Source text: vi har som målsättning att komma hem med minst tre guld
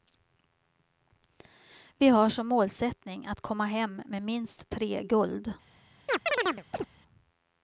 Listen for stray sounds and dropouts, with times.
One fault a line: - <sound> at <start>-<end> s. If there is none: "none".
- chirp at 6.1-6.9 s